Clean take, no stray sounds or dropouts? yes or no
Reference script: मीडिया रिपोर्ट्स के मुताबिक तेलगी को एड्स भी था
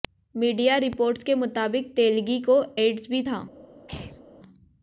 no